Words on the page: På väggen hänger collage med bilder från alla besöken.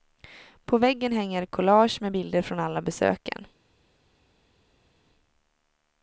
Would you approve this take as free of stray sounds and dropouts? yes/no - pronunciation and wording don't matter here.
yes